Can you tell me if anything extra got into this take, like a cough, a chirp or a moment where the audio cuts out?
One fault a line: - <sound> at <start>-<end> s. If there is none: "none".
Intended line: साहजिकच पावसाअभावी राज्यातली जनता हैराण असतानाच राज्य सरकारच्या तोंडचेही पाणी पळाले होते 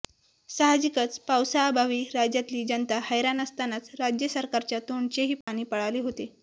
- dropout at 5.4-5.5 s